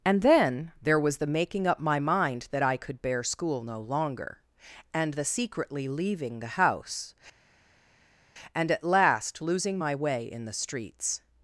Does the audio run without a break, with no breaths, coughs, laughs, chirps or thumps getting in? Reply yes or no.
yes